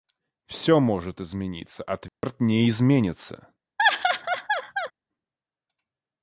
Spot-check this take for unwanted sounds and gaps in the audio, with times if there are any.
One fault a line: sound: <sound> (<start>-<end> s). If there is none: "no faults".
sound: dropout (2.1-2.2 s)
sound: laugh (3.8-4.9 s)